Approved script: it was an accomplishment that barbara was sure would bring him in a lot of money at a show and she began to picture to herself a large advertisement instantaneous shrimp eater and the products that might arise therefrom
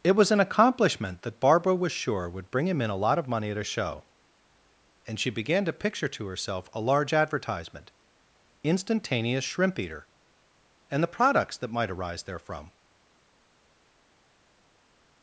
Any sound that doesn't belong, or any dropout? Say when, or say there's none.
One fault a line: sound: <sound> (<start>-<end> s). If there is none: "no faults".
no faults